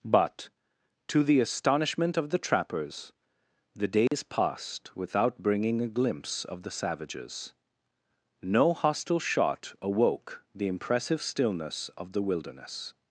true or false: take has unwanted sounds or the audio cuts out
true